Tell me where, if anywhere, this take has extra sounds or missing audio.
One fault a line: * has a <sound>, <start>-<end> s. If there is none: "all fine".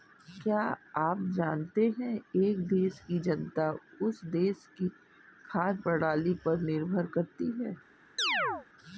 * has a chirp, 8.2-8.7 s